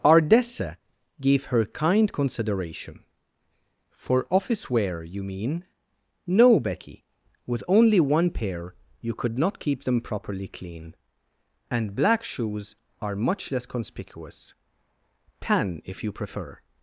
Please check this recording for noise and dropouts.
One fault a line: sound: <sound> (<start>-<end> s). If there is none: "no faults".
no faults